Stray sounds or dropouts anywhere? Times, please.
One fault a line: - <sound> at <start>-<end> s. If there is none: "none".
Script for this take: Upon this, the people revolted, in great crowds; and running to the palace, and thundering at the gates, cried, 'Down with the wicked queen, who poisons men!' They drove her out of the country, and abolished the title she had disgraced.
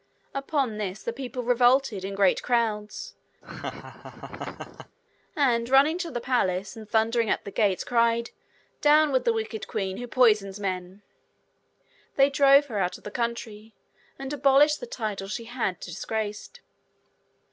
- laugh at 3.4-5.0 s